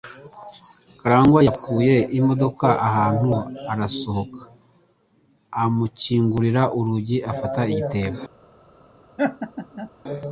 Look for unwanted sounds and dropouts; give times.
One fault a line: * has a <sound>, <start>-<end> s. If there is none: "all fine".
* has a laugh, 9.2-9.9 s